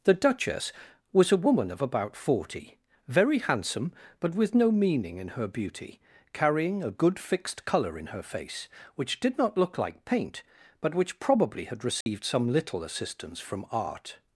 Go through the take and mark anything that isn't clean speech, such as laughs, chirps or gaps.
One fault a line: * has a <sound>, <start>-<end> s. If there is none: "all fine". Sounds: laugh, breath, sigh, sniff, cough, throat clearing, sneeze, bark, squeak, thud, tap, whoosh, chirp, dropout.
* has a dropout, 12.0-12.1 s